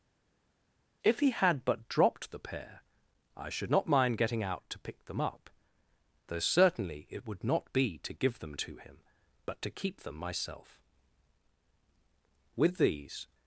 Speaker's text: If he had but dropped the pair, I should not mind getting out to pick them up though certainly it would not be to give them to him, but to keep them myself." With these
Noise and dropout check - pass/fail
pass